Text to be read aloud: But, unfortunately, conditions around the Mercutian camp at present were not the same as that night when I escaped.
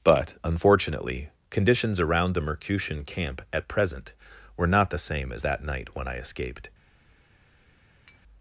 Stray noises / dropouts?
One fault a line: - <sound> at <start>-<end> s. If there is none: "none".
- tap at 8.1-8.2 s